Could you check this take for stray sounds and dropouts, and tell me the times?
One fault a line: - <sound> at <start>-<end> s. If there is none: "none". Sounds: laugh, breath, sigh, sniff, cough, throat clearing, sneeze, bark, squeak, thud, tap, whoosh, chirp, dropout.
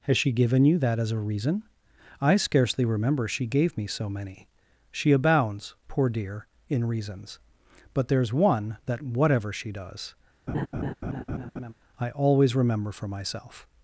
- laugh at 10.5-11.7 s